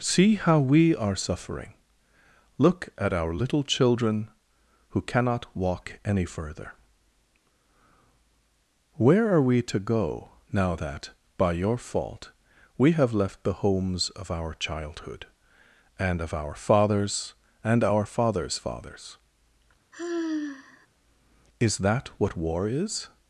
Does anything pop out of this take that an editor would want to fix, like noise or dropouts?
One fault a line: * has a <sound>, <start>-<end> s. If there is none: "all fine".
* has a sigh, 19.9-20.9 s